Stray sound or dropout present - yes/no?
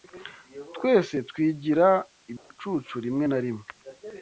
yes